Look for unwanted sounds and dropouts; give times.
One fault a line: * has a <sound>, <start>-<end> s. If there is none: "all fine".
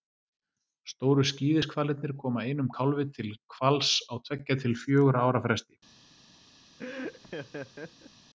* has a laugh, 6.8-8.1 s